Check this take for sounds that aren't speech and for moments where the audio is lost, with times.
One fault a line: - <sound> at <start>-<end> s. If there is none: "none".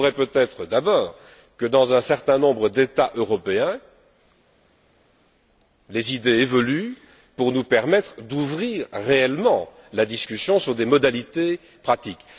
none